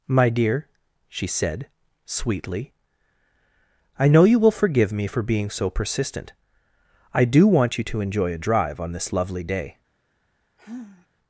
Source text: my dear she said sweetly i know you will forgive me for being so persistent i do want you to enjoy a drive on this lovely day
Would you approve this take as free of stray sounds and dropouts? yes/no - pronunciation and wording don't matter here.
no